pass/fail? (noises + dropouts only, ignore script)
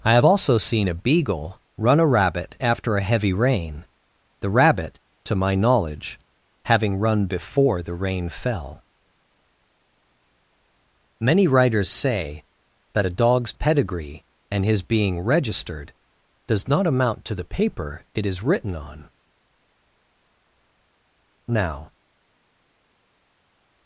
pass